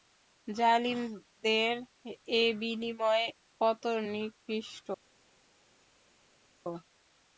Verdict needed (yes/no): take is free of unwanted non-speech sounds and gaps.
yes